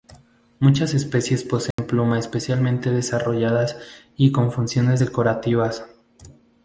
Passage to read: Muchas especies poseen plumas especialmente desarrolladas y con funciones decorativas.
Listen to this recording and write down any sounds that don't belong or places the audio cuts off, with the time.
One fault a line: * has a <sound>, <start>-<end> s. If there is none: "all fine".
* has a dropout, 1.7-1.8 s